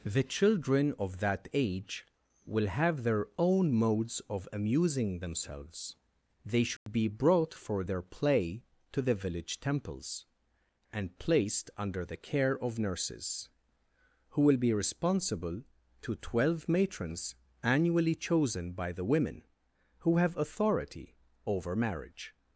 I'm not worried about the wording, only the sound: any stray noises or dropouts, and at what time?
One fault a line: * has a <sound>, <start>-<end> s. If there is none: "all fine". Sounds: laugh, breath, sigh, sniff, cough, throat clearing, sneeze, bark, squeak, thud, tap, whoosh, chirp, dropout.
* has a dropout, 6.8-6.9 s